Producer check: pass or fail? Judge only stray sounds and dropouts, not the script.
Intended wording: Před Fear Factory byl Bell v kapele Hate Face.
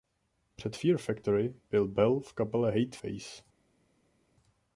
pass